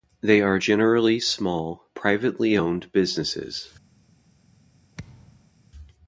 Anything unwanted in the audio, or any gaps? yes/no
yes